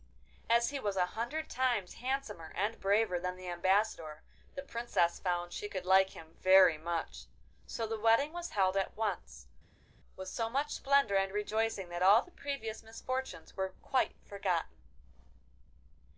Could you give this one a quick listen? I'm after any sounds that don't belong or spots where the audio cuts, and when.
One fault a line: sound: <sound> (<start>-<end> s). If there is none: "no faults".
no faults